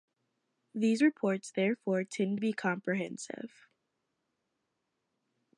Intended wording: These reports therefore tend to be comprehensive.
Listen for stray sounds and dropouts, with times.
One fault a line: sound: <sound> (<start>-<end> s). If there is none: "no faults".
no faults